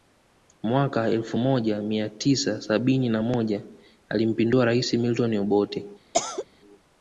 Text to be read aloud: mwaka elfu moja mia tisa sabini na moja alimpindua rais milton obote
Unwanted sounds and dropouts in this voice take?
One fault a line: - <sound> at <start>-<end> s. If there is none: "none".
- cough at 6.1-6.5 s